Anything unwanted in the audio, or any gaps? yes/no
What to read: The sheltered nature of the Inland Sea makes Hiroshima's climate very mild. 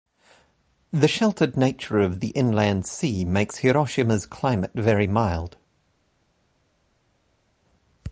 no